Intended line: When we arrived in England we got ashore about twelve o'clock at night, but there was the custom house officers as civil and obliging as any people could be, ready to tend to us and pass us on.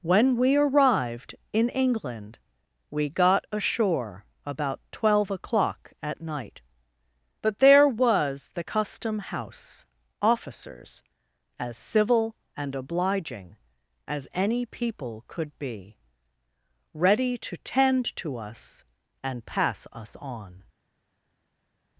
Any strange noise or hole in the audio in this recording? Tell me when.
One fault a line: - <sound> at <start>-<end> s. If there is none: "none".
none